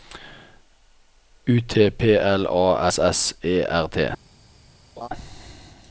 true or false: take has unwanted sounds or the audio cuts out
true